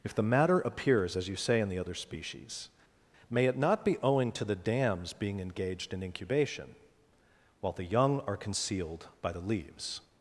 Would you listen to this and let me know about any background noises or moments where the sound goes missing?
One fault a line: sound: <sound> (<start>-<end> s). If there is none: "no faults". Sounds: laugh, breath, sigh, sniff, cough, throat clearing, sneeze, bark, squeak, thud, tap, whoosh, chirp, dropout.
no faults